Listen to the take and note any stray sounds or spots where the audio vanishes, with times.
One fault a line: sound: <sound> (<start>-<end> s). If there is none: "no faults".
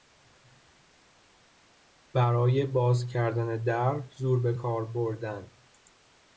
no faults